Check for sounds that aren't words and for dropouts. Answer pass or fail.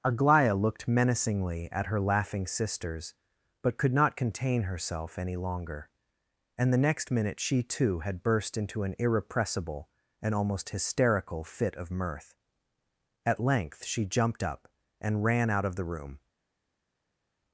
pass